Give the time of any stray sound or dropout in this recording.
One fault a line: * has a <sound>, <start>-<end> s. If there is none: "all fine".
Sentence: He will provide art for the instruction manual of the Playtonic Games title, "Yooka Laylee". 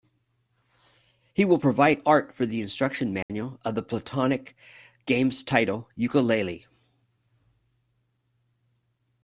* has a dropout, 3.2-3.3 s